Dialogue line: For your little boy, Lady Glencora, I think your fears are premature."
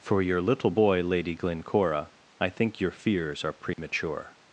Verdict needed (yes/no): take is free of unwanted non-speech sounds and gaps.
no